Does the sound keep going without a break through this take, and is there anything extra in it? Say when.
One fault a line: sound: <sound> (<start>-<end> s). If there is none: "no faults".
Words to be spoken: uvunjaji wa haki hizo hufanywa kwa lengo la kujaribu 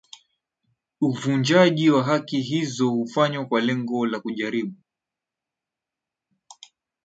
no faults